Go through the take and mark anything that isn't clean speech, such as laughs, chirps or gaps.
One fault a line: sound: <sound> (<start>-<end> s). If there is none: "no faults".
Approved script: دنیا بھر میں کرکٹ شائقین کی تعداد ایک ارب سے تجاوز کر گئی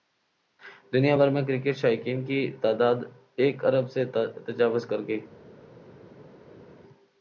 no faults